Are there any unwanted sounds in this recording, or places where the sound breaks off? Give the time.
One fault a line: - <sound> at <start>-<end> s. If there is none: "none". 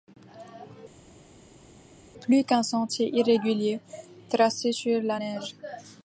none